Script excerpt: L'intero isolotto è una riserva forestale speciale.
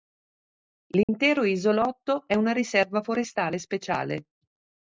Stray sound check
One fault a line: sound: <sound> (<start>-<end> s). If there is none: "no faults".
sound: dropout (1.0-1.1 s)